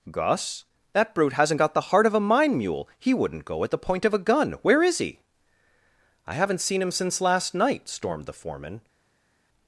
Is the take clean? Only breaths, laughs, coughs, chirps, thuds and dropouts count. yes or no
yes